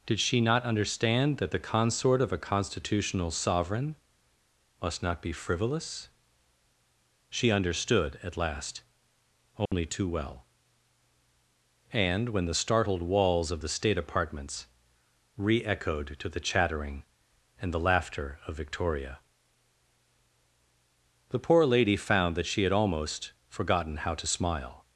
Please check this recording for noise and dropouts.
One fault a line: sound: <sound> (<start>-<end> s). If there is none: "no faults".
sound: dropout (9.7-9.7 s)